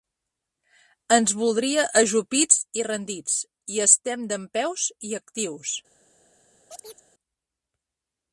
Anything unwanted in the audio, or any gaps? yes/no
yes